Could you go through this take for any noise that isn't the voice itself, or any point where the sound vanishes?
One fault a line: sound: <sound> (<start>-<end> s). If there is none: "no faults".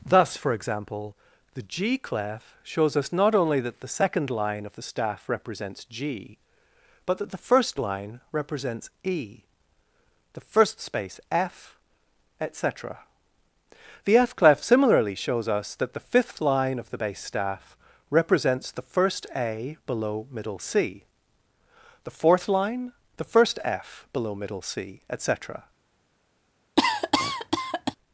sound: cough (26.8-28.0 s)